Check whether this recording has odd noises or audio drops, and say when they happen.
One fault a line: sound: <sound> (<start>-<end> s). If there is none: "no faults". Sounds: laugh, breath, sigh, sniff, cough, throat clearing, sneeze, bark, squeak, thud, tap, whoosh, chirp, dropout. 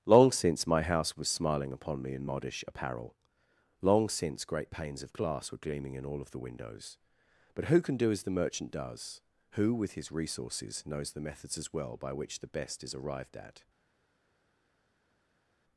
no faults